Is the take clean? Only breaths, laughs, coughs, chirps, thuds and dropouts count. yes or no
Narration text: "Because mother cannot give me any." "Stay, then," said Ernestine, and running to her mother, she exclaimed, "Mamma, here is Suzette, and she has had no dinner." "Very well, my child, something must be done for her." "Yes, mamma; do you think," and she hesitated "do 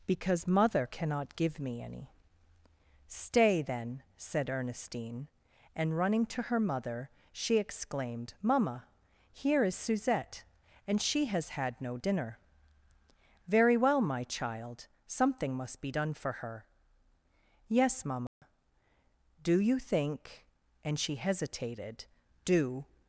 no